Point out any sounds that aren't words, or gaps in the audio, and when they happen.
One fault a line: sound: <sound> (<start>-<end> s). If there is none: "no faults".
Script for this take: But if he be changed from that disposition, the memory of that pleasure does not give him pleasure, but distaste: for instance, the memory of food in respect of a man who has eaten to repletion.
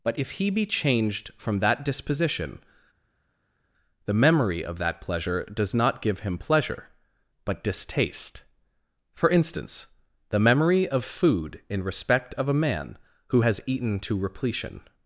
no faults